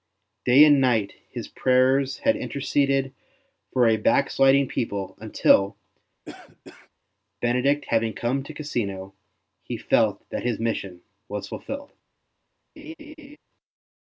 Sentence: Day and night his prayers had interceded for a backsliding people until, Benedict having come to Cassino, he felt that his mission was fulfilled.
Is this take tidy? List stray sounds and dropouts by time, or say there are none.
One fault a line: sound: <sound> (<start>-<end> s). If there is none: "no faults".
sound: cough (6.3-6.9 s)
sound: laugh (12.8-13.4 s)